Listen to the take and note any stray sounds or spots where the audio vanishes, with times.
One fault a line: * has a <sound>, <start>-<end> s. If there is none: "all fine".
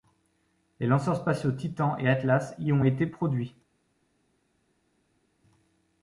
all fine